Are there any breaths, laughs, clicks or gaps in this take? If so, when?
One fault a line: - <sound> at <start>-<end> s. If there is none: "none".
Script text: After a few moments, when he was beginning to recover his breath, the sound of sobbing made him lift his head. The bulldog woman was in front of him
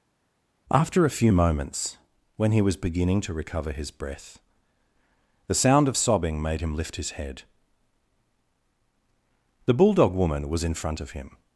none